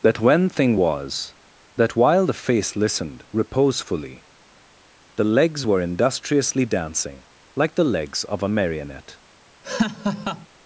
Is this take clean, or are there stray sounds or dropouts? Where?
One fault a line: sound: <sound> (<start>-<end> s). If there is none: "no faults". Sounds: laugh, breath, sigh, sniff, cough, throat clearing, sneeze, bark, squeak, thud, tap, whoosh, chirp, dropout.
sound: laugh (9.6-10.5 s)